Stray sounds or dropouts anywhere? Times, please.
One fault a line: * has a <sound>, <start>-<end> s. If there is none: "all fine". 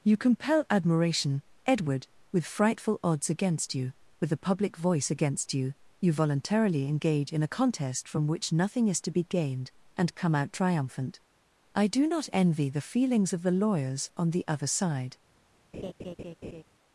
* has a laugh, 15.7-16.6 s